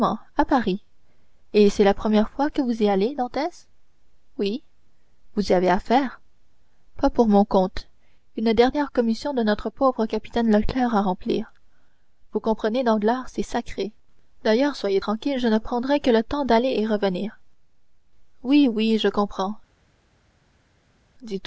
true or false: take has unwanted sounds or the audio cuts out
false